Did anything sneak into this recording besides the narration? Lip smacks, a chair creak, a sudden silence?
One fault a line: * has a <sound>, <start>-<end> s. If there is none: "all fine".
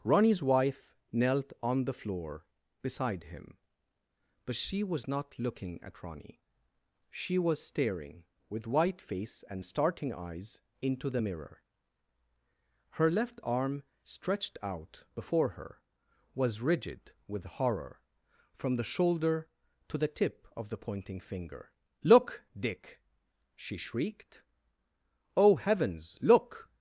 all fine